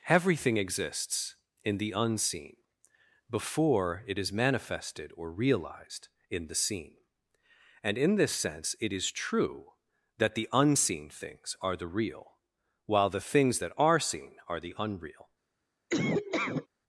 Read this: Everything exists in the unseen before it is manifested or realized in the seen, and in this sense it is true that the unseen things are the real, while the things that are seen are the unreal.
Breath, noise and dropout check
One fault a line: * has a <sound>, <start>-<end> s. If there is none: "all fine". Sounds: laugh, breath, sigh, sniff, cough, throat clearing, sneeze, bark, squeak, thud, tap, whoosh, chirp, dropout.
* has a laugh, 15.9-16.7 s